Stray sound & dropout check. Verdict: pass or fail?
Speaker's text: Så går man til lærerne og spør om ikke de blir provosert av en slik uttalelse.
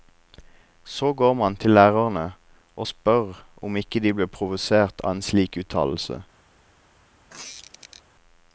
fail